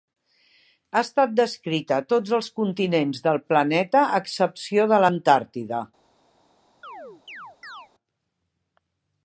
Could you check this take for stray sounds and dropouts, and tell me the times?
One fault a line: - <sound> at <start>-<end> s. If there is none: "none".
- chirp at 6.8-7.9 s